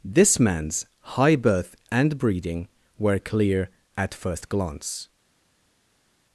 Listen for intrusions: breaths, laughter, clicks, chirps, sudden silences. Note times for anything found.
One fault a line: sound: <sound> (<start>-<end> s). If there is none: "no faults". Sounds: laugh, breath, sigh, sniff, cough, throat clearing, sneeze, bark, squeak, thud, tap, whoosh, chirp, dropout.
no faults